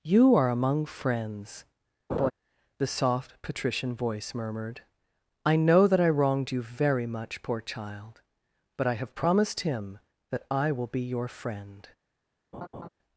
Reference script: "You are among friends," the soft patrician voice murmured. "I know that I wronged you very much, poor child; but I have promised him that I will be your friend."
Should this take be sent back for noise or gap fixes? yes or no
yes